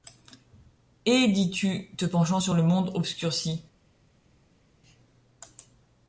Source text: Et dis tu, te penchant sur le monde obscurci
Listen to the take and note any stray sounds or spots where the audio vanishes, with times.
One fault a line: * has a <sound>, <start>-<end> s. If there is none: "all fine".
all fine